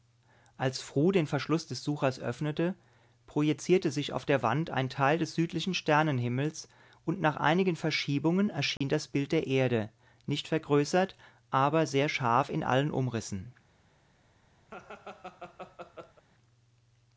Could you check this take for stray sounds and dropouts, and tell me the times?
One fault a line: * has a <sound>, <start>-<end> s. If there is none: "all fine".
* has a dropout, 8.8-8.8 s
* has a laugh, 14.7-16.2 s